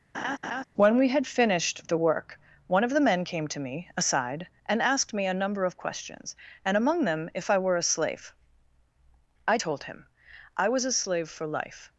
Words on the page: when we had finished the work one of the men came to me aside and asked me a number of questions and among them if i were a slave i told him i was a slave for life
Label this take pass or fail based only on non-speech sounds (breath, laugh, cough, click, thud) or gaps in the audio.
fail